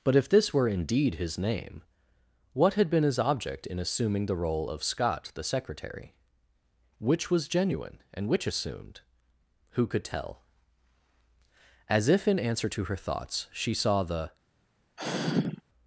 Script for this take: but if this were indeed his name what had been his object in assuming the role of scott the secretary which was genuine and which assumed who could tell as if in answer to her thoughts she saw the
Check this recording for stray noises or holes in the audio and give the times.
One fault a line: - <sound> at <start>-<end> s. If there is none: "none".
- sigh at 15.0-15.6 s